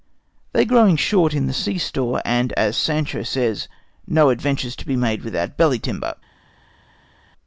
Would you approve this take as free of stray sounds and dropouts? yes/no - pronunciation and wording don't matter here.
yes